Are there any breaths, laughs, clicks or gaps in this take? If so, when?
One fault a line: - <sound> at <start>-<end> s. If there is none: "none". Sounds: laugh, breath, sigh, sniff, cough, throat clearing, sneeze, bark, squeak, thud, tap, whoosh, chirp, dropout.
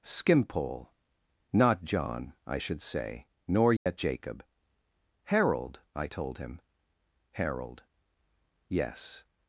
- dropout at 3.8-3.9 s